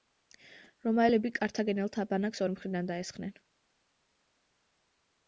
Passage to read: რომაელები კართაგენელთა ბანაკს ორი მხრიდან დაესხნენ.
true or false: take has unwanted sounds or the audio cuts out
false